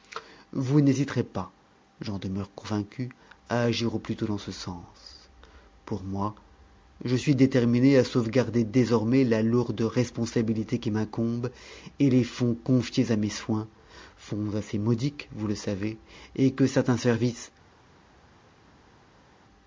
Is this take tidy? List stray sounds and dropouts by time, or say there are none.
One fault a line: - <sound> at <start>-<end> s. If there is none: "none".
none